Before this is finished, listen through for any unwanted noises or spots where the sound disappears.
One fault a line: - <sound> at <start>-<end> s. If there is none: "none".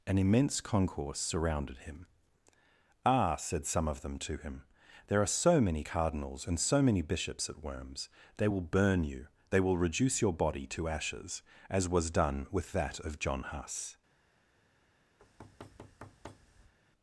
- thud at 15.2-16.7 s